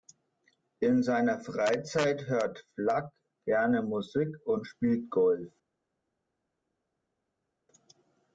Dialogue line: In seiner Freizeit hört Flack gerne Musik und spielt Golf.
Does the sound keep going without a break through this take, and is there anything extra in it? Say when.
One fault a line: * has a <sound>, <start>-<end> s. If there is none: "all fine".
all fine